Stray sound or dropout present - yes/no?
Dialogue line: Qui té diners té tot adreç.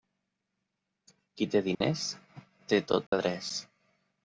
yes